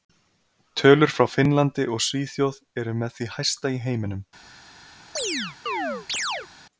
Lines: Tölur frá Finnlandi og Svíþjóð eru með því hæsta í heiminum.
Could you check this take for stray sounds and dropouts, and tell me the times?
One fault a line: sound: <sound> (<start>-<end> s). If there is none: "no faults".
sound: chirp (5.2-6.5 s)